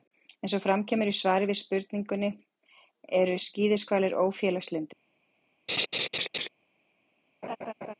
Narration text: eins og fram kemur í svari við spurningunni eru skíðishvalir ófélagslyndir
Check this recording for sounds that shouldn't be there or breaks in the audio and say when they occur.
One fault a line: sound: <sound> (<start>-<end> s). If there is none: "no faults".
sound: laugh (5.7-6.5 s)
sound: laugh (7.4-7.9 s)